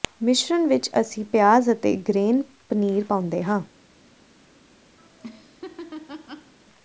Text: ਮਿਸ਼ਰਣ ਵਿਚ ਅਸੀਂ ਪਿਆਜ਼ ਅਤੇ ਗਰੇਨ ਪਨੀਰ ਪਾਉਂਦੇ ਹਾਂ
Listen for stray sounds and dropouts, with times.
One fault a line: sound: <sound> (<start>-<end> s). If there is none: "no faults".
sound: laugh (5.0-6.5 s)